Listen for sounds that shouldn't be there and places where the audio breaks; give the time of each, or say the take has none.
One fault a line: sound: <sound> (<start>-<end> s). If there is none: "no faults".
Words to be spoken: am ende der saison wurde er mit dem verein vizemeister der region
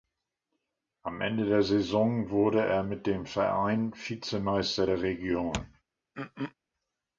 sound: throat clearing (6.1-6.5 s)